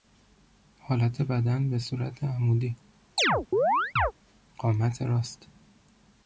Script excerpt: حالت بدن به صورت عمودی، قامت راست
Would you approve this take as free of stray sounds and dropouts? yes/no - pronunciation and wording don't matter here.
no